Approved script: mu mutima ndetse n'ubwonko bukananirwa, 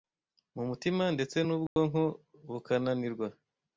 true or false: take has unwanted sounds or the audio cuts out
true